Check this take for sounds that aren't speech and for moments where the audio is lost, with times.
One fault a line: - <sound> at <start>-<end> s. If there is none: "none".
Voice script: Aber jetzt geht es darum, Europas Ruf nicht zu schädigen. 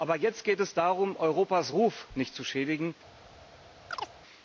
- chirp at 3.9-4.1 s